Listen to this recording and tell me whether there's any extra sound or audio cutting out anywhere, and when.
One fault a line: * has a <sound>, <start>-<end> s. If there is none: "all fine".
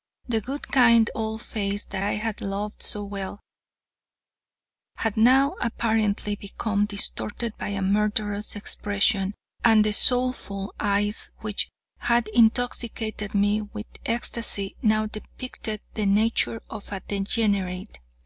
all fine